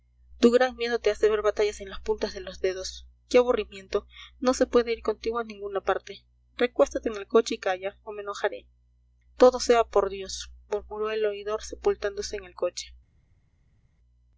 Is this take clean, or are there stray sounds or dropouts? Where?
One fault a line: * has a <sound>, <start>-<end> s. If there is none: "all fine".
all fine